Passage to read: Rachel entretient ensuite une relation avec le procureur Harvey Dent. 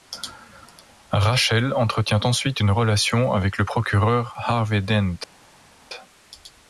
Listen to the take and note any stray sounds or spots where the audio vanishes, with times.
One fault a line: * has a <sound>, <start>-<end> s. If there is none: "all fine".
all fine